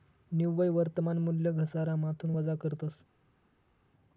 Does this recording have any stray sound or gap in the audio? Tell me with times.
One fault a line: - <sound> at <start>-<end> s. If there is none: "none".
none